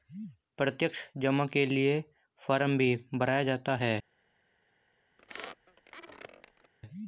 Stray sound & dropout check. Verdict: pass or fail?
fail